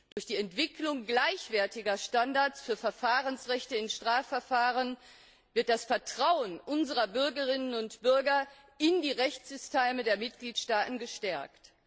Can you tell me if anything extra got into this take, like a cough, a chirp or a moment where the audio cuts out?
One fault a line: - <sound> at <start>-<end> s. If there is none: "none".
- dropout at 0.1-0.2 s